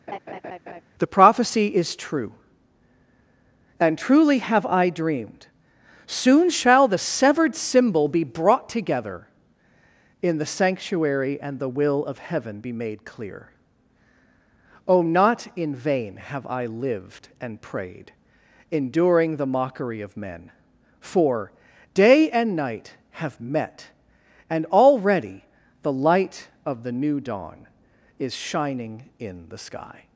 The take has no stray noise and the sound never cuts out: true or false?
false